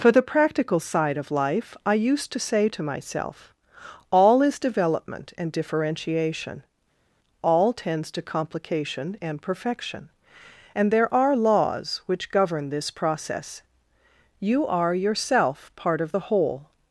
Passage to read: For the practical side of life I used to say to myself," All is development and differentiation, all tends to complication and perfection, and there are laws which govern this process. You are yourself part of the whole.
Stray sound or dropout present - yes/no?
no